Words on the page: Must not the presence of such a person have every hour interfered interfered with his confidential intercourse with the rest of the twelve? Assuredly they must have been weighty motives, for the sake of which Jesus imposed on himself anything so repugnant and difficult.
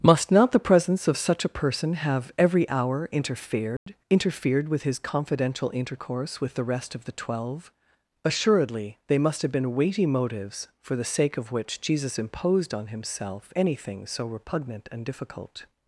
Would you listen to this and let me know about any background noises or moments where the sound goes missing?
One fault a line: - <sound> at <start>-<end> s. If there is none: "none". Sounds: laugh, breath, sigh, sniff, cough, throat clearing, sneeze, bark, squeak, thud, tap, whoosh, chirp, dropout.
- dropout at 3.8-3.9 s